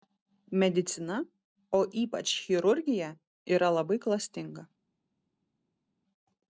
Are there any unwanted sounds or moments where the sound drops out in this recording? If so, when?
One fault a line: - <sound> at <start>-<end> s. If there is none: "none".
none